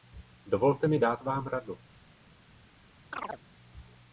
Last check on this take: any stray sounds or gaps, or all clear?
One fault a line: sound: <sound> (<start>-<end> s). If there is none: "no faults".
sound: chirp (3.1-3.4 s)